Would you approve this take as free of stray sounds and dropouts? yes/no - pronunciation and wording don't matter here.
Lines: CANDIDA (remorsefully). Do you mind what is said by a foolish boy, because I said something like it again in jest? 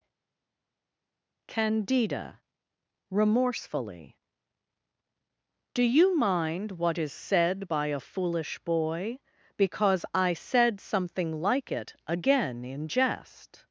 yes